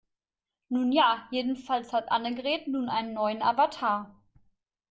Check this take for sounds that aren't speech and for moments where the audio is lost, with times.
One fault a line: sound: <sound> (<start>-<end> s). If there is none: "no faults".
no faults